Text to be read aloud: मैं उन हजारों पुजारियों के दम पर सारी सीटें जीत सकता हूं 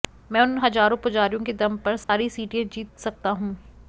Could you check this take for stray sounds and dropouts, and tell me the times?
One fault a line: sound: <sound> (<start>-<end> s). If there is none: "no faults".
sound: dropout (2.0-2.1 s)